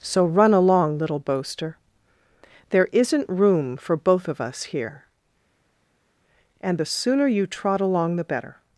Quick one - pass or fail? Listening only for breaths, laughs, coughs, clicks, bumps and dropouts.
pass